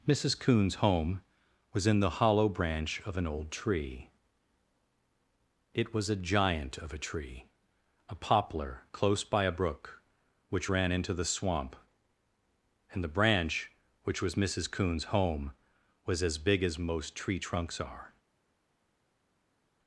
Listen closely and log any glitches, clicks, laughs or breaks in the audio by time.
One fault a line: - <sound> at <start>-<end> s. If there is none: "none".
none